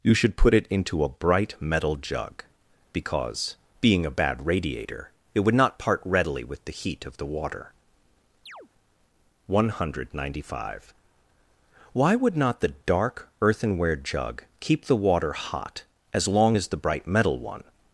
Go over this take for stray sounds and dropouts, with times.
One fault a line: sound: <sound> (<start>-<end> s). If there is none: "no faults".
sound: chirp (8.5-8.7 s)